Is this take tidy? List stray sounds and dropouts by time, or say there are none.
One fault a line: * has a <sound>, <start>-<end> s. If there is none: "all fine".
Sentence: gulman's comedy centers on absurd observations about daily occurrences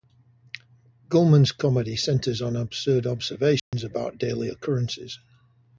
* has a dropout, 3.6-3.7 s